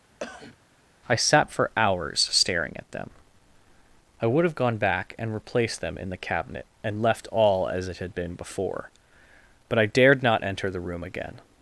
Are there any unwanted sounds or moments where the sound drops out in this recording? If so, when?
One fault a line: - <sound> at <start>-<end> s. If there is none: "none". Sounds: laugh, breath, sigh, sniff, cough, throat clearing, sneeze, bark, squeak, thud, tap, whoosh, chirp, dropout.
- cough at 0.2-0.6 s